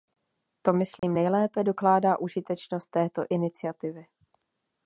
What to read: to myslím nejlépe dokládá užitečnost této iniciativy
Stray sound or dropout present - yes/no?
yes